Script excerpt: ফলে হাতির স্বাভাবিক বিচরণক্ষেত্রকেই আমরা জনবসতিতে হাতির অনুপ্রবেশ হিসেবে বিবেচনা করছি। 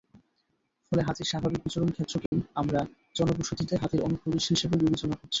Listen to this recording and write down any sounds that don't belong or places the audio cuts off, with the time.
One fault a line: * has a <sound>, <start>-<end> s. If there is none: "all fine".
* has a dropout, 2.3-2.3 s